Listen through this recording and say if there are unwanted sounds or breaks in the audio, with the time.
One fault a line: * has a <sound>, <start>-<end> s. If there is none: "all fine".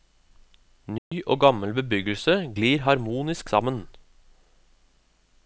* has a dropout, 1.0-1.1 s